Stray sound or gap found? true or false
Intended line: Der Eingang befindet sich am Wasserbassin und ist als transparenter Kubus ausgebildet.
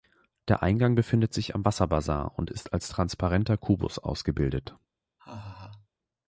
true